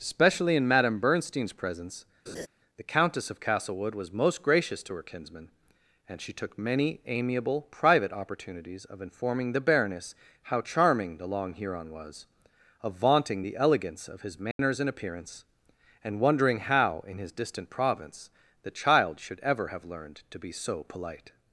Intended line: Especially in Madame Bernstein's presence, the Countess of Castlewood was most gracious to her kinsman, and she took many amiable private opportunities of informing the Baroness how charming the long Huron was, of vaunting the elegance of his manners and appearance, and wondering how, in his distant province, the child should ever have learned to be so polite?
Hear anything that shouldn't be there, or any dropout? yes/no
yes